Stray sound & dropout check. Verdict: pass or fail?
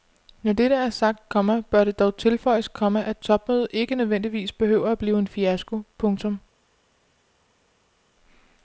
pass